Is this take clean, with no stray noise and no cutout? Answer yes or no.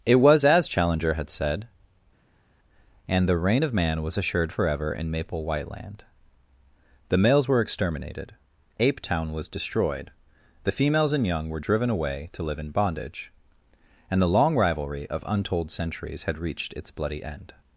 yes